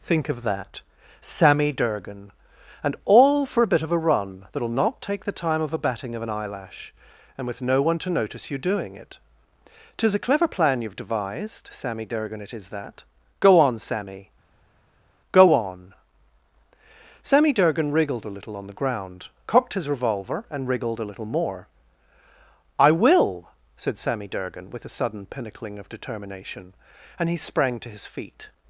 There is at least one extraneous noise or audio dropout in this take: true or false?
false